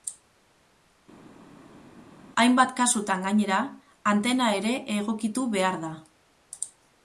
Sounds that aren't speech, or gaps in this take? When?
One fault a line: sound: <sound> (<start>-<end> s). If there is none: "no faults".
no faults